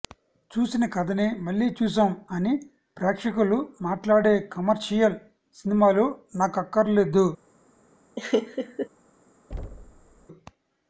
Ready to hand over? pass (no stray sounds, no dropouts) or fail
fail